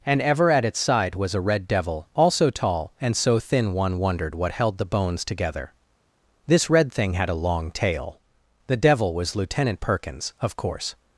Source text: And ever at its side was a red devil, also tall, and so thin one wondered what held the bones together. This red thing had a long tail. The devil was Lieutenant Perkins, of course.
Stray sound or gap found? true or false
false